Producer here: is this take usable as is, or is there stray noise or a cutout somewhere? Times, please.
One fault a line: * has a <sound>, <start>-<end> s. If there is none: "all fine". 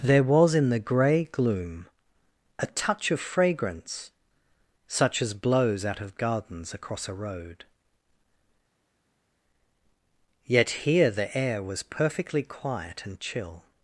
all fine